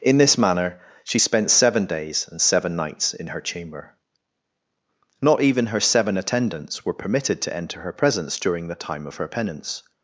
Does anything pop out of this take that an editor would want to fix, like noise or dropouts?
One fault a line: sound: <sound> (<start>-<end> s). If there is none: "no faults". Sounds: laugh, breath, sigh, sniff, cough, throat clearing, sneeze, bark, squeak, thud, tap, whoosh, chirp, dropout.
no faults